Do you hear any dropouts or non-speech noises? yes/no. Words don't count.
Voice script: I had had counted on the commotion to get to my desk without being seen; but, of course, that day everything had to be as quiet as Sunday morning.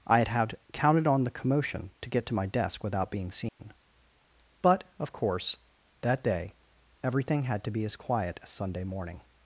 yes